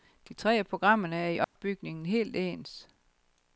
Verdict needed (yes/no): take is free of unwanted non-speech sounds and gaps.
no